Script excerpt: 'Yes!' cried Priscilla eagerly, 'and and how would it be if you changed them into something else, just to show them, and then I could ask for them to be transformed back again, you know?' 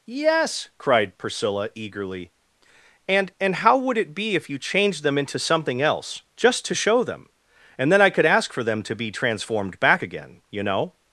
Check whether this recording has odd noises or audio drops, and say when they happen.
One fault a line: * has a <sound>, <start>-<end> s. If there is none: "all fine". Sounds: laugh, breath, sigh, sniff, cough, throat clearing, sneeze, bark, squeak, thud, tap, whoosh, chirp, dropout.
all fine